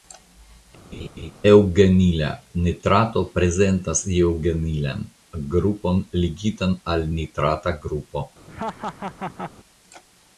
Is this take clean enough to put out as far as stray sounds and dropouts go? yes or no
no